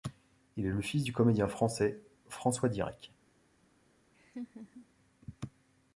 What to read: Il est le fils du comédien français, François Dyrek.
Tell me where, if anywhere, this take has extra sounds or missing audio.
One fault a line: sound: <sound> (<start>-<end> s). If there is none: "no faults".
sound: laugh (4.1-4.9 s)